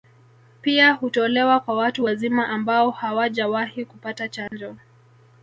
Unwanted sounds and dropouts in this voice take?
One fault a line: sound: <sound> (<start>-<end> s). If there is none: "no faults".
sound: dropout (4.5-4.5 s)